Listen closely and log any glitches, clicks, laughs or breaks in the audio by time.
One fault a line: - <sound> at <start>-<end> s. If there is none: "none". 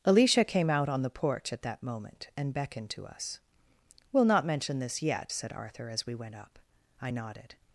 none